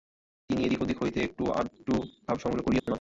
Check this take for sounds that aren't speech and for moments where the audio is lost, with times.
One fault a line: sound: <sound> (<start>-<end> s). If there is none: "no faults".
sound: dropout (2.8-2.9 s)